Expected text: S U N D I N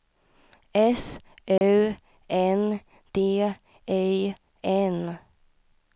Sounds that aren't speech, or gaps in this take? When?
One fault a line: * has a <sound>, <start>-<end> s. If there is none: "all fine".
* has a dropout, 1.6-1.6 s